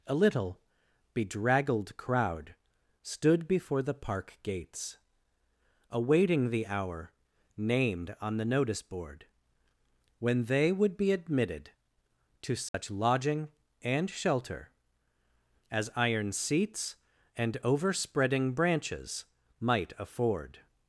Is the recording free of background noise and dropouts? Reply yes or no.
no